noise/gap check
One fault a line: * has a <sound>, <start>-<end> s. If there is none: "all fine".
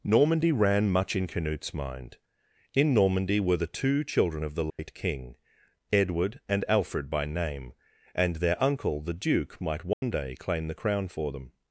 * has a dropout, 4.7-4.8 s
* has a dropout, 9.9-10.0 s